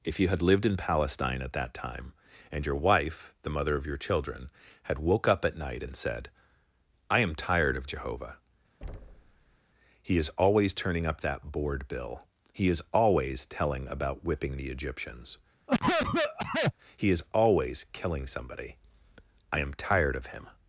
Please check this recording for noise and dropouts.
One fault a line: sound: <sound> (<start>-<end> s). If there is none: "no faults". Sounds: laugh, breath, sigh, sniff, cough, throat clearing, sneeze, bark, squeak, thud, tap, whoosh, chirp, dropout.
sound: thud (8.8-9.6 s)
sound: cough (15.7-16.7 s)